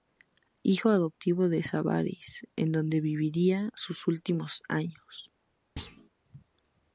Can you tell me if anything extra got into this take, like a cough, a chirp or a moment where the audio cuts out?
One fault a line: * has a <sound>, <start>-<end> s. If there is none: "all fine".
* has a thud, 5.8-6.1 s